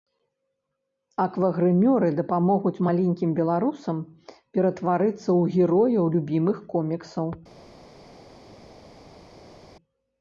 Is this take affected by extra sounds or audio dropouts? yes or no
no